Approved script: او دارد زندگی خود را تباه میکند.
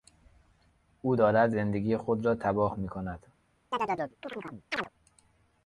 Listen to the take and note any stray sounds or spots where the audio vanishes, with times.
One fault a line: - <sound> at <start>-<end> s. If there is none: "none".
- chirp at 3.7-4.9 s